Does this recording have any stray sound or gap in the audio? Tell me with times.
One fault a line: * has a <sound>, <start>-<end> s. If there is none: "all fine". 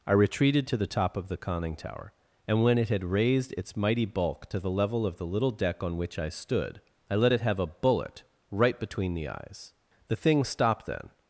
all fine